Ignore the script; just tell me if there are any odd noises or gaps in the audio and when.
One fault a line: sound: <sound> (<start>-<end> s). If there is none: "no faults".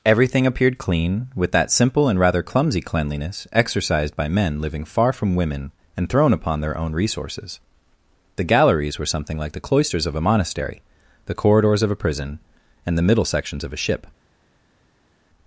no faults